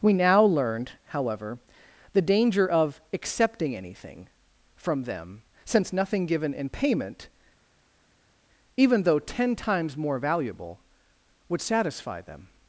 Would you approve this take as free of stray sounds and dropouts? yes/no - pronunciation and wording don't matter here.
yes